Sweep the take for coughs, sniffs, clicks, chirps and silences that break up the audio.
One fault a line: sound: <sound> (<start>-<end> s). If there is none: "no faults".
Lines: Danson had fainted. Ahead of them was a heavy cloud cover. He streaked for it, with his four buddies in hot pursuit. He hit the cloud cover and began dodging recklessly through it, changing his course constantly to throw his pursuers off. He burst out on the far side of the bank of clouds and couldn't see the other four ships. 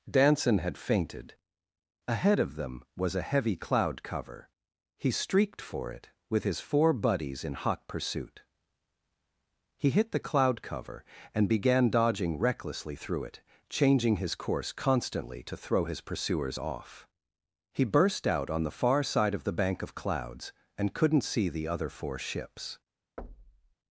sound: thud (23.2-23.7 s)